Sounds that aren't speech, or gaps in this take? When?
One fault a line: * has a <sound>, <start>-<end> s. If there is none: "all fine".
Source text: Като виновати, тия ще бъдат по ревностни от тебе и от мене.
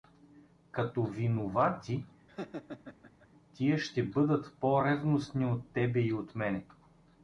* has a laugh, 2.3-3.3 s